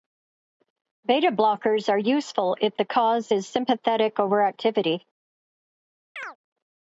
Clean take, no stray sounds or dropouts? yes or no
no